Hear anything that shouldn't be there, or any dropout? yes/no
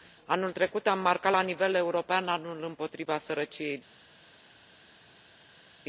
no